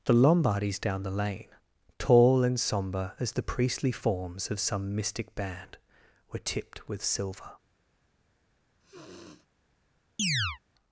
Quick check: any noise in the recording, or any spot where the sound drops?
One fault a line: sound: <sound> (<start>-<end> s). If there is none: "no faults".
sound: sniff (8.8-9.5 s)
sound: chirp (10.2-10.6 s)